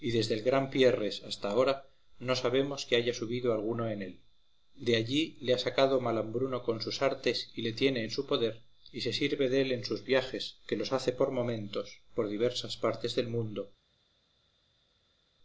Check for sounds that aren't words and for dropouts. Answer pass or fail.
pass